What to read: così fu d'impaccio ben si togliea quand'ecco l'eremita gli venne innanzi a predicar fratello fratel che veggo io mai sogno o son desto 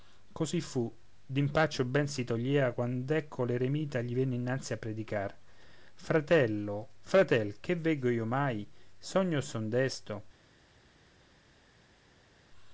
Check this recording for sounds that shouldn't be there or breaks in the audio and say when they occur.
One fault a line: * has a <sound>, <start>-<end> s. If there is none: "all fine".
all fine